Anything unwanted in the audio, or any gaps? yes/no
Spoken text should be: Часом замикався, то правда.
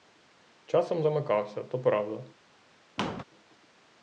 yes